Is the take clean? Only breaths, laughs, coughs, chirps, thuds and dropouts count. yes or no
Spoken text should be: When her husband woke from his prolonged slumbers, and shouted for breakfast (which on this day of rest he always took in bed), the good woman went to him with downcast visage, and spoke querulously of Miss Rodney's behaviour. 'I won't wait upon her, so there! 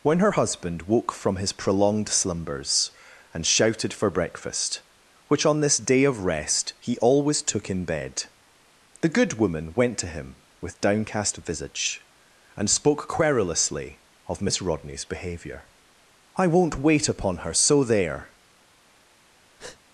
no